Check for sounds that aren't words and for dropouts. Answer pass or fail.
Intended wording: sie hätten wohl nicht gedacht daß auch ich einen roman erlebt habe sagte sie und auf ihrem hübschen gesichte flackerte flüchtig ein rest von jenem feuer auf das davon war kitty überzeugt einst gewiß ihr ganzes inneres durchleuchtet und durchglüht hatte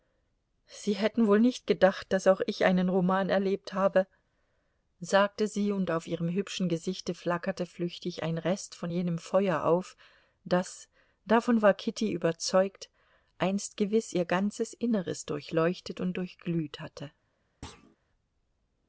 fail